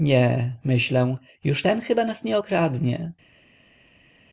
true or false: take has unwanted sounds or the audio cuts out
false